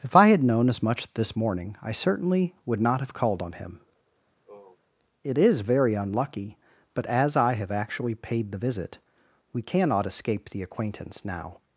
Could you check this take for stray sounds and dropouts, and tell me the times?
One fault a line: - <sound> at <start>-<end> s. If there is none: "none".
- sigh at 4.3-4.8 s